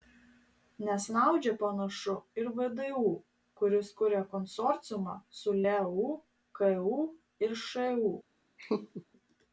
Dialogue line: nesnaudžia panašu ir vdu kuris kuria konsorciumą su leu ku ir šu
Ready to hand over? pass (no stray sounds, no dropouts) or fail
fail